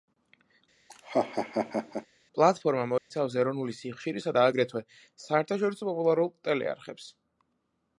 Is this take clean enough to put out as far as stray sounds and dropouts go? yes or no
no